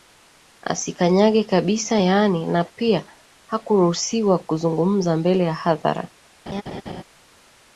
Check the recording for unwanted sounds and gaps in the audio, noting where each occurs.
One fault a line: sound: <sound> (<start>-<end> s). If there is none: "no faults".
sound: laugh (6.5-7.0 s)